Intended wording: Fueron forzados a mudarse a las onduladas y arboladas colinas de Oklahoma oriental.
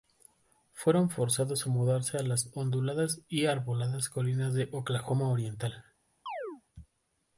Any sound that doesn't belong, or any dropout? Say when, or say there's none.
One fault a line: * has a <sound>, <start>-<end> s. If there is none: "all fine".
* has a chirp, 6.3-6.6 s